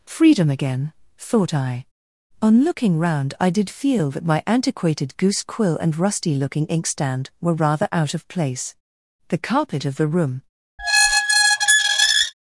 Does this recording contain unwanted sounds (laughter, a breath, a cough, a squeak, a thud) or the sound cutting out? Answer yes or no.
yes